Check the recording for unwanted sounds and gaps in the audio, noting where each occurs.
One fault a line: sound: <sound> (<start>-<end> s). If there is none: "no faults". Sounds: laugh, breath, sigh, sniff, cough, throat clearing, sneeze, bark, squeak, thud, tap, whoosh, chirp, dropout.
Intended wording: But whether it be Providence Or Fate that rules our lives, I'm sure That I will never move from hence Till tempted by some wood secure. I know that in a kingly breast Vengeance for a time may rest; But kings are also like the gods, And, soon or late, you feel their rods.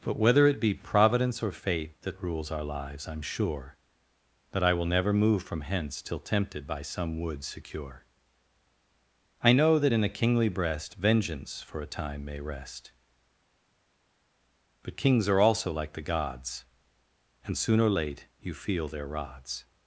no faults